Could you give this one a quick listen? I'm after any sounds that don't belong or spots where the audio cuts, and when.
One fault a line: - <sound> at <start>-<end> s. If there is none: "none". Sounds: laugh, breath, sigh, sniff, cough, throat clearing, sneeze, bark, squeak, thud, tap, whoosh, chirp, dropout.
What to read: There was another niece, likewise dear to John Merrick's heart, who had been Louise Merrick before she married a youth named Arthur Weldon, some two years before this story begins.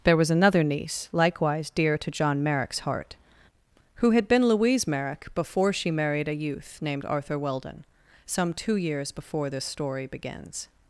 none